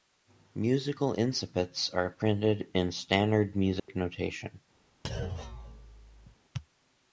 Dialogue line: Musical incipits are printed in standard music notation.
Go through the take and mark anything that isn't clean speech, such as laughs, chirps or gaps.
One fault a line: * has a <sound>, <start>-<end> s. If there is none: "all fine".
* has a dropout, 3.8-3.9 s
* has a thud, 5.0-6.4 s